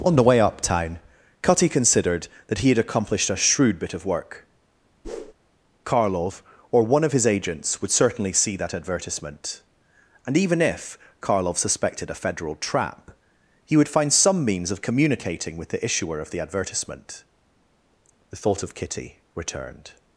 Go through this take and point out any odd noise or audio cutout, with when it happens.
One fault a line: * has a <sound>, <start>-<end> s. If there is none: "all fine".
* has a whoosh, 5.0-5.3 s